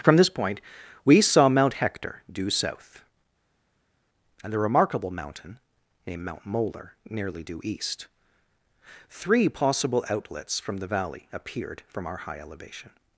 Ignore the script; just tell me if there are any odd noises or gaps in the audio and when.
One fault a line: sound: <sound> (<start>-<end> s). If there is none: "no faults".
no faults